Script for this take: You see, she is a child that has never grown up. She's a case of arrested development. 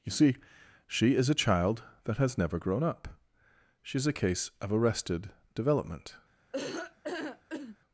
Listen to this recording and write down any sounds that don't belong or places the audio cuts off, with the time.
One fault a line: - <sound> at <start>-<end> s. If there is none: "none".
- laugh at 6.5-7.8 s